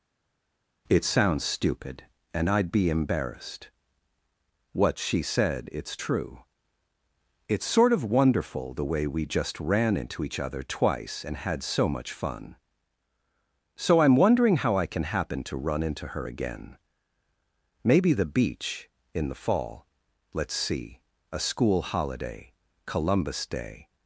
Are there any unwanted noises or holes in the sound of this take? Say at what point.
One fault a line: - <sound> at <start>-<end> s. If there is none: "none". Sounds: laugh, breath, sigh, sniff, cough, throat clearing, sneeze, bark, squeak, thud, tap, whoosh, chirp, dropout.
none